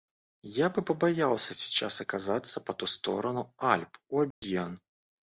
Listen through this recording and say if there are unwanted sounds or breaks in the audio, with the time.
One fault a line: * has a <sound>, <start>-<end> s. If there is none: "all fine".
* has a dropout, 4.3-4.4 s